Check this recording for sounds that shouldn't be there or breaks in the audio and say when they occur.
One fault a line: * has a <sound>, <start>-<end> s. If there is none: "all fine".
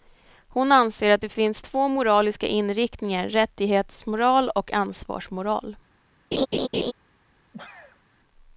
* has a laugh, 6.3-6.9 s
* has a sneeze, 7.5-8.0 s